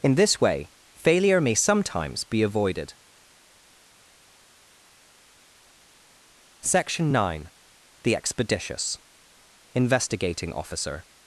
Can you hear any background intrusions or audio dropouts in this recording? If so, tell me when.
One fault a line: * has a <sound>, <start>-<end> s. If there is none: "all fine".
all fine